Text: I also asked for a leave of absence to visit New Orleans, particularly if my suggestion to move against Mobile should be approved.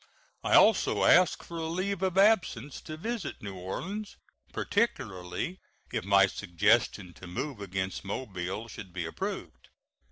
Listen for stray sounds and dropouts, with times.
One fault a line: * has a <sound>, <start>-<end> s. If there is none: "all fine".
all fine